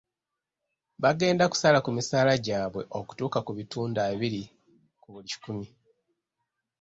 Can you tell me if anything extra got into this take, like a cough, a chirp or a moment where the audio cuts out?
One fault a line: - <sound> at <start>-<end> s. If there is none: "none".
none